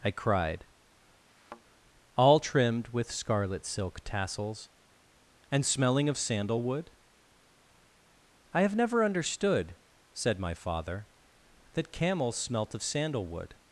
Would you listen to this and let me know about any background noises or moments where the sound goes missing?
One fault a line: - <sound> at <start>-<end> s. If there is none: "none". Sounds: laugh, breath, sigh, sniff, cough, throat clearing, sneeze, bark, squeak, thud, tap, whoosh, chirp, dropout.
- thud at 1.3-1.6 s